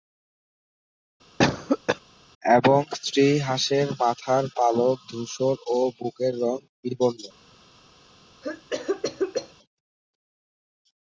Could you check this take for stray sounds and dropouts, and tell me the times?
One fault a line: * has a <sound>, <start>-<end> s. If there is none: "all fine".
* has a cough, 1.4-2.0 s
* has a cough, 8.4-9.5 s